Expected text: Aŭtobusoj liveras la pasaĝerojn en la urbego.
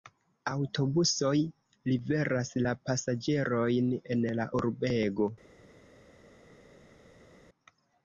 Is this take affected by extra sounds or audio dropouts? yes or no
no